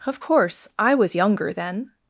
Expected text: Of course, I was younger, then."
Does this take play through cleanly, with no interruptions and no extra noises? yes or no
yes